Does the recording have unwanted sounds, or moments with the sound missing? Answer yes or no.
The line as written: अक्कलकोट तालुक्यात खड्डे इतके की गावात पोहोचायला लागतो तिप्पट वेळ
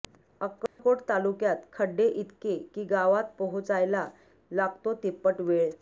yes